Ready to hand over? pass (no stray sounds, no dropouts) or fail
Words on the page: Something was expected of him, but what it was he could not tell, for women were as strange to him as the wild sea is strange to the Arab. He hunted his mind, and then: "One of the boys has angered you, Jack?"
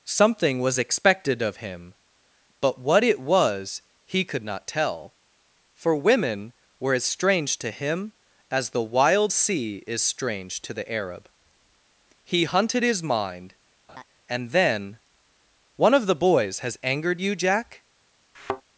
fail